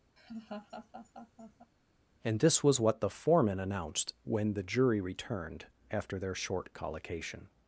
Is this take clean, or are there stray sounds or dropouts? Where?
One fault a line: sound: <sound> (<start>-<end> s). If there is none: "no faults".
sound: laugh (0.2-1.7 s)